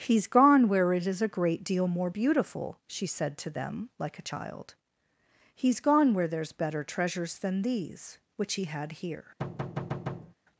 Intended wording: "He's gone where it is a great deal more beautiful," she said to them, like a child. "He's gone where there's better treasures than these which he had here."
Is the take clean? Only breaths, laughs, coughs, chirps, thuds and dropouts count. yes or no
no